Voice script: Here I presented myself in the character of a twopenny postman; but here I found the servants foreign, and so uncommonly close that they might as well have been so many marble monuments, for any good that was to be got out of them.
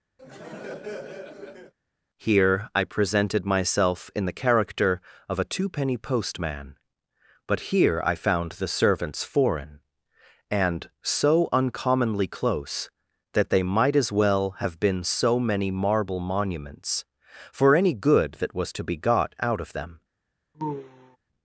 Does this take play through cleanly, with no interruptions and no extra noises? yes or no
no